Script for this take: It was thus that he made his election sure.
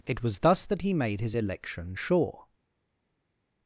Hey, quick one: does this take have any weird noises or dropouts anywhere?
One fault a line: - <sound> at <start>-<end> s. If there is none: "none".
none